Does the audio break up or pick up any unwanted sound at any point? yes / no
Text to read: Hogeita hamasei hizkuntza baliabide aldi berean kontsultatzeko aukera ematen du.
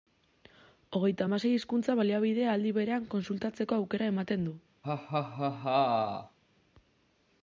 yes